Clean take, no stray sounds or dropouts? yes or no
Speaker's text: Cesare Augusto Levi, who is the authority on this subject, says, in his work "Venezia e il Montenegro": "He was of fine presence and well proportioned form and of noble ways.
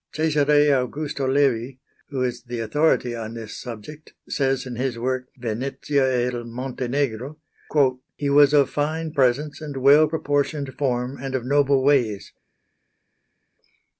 yes